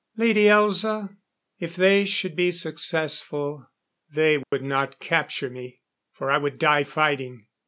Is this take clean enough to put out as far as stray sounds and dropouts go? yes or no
no